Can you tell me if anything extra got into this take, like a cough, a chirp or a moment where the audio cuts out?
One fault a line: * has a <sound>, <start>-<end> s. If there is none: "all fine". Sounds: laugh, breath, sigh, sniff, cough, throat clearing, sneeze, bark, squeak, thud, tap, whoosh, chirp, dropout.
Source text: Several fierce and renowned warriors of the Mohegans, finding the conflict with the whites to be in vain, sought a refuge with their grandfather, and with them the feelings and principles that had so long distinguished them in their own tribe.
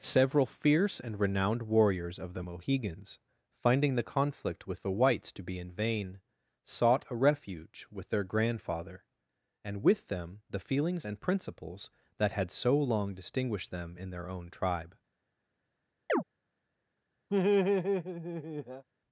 * has a chirp, 16.1-16.2 s
* has a laugh, 17.3-18.8 s